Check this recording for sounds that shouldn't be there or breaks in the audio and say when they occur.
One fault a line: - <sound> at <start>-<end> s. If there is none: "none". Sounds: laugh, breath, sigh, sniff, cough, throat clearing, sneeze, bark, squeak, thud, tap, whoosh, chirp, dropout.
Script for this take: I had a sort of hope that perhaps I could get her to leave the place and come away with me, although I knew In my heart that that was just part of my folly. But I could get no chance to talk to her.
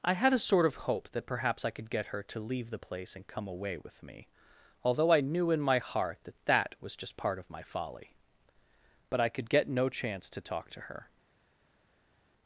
none